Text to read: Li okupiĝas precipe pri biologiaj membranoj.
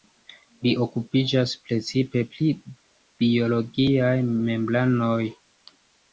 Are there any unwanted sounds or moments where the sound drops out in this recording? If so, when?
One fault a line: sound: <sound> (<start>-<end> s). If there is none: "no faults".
no faults